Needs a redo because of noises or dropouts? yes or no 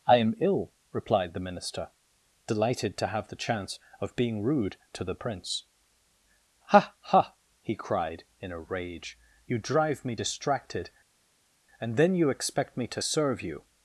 no